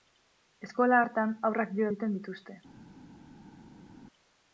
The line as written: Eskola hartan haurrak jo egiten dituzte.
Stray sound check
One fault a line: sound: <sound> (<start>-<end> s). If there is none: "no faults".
no faults